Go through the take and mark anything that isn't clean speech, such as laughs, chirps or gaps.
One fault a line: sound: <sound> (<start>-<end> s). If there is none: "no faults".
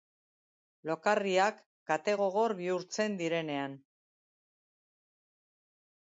no faults